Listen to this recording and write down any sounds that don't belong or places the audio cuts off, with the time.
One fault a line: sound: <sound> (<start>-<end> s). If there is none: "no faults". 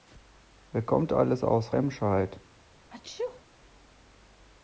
sound: sneeze (2.9-3.4 s)